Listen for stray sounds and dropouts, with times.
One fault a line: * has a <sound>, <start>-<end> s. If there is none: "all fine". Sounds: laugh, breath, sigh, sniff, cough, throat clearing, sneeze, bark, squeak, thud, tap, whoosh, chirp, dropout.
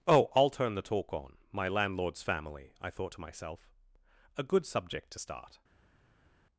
all fine